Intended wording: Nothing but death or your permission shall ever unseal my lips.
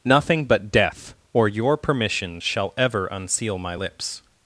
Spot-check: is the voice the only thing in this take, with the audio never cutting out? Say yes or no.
yes